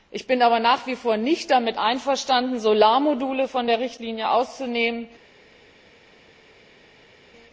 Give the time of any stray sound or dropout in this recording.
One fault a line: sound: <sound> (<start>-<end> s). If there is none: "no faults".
no faults